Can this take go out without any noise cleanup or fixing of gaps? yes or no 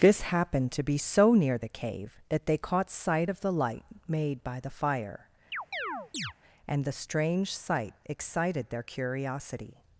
no